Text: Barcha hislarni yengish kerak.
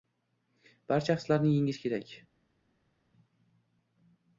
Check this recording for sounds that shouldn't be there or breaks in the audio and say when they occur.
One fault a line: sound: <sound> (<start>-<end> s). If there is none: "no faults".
no faults